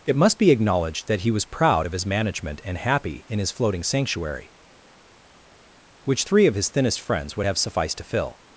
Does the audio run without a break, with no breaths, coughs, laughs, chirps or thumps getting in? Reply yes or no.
yes